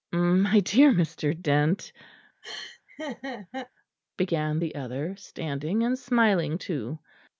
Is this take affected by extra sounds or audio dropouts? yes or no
yes